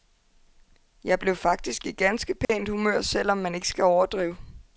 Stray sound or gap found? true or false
true